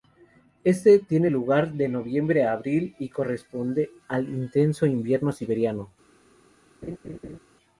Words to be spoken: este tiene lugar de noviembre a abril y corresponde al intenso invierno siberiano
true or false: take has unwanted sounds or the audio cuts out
true